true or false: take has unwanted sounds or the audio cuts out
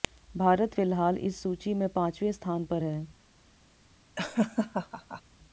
true